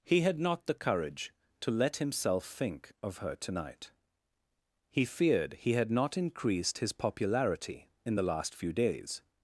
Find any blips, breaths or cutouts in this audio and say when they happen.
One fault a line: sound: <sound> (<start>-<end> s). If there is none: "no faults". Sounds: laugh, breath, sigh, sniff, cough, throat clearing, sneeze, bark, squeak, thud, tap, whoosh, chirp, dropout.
no faults